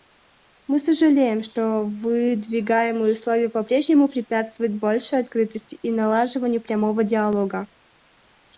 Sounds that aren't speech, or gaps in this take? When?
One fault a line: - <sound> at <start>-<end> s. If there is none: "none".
none